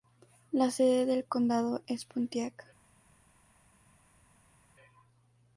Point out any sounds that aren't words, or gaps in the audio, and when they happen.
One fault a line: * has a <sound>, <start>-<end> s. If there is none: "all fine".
all fine